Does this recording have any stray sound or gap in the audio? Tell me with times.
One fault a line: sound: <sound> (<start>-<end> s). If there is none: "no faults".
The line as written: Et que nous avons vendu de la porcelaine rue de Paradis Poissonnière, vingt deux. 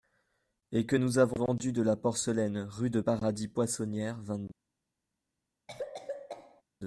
sound: cough (5.7-6.6 s)